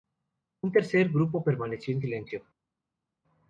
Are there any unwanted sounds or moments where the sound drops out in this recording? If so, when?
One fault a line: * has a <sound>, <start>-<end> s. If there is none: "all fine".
all fine